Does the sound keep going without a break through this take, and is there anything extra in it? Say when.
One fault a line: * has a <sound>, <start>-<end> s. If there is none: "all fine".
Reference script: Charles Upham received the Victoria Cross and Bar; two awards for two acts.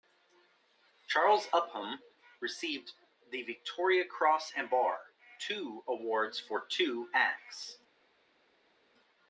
all fine